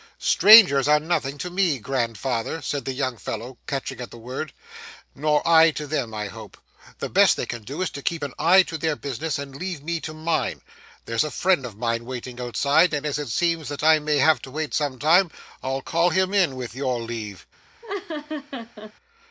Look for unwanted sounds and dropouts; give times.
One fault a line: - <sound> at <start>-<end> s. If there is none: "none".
- laugh at 17.8-18.9 s